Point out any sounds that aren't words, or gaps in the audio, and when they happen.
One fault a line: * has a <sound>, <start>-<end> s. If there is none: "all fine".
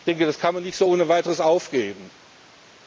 all fine